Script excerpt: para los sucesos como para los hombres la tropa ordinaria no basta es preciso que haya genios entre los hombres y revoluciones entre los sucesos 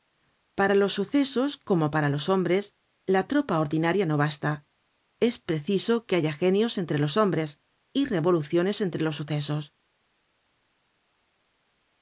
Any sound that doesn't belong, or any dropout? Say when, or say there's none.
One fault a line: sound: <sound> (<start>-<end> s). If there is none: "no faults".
no faults